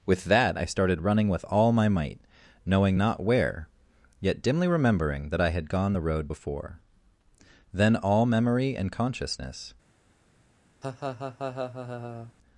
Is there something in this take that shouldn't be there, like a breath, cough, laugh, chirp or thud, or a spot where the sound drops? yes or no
yes